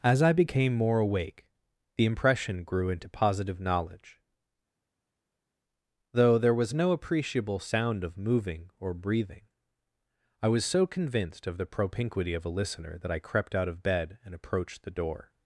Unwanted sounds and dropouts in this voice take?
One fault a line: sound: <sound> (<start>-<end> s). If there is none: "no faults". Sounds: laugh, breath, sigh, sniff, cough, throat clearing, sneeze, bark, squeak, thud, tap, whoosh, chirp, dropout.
no faults